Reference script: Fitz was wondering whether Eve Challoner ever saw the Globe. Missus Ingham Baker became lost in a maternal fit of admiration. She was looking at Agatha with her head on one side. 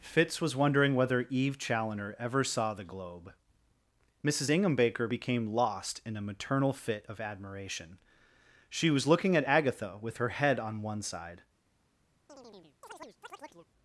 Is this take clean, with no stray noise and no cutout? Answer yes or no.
no